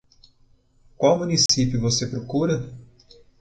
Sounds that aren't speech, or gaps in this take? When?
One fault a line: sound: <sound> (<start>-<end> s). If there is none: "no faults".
sound: dropout (1.5-1.5 s)